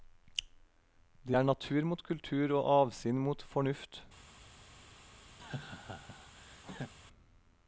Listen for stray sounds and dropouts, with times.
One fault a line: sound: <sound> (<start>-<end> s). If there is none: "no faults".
sound: laugh (5.4-6.9 s)